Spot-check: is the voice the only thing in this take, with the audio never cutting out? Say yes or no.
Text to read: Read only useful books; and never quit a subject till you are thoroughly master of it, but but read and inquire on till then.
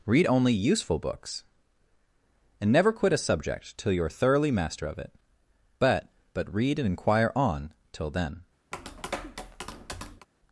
no